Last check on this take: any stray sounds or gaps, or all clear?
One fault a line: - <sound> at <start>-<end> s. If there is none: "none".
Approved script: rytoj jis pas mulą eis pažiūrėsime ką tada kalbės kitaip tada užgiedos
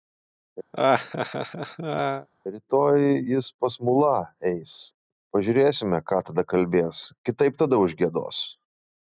- laugh at 0.7-2.3 s